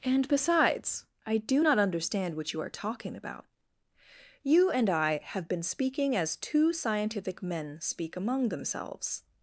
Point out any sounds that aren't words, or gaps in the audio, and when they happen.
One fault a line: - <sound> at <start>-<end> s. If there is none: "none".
none